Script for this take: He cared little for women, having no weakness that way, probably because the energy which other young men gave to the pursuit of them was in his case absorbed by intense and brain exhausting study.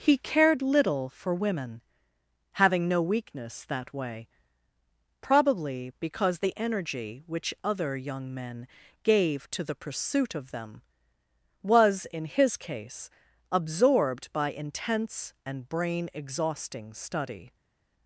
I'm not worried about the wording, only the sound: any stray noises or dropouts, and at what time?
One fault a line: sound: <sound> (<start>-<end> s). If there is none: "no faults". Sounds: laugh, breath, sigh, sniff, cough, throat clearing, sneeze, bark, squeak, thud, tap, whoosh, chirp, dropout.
no faults